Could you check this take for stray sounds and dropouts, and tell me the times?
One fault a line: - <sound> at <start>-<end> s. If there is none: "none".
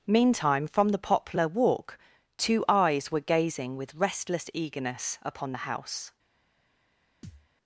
- thud at 7.2-7.5 s